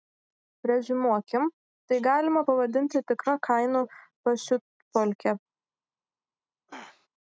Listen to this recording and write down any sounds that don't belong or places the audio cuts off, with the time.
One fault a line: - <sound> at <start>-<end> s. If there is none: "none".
- throat clearing at 6.7-7.1 s